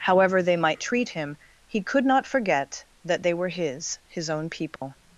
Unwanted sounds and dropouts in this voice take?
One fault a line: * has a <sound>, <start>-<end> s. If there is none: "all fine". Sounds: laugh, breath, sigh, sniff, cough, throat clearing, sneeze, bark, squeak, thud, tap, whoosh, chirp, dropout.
* has a dropout, 4.8-4.8 s